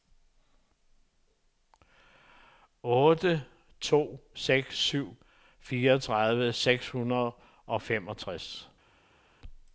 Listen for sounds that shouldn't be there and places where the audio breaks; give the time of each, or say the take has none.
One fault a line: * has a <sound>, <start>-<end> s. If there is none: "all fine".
all fine